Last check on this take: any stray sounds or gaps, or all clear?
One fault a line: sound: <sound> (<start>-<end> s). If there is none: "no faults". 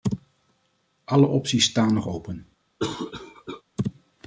sound: cough (2.8-3.6 s)